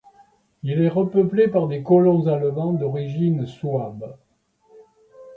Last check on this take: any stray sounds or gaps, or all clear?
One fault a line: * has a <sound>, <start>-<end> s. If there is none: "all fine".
all fine